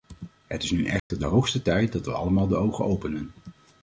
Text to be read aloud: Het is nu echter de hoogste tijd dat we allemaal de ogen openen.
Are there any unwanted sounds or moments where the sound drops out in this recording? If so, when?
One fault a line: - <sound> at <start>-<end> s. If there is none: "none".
- dropout at 1.0-1.1 s